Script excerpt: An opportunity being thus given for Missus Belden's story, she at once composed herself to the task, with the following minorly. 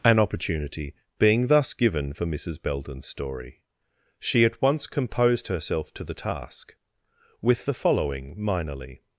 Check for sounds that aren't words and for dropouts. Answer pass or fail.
pass